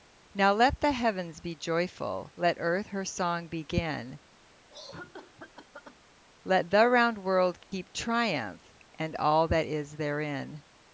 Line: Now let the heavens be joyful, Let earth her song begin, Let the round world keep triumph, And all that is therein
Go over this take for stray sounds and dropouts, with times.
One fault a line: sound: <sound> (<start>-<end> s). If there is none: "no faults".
sound: cough (4.7-6.0 s)
sound: dropout (7.6-7.7 s)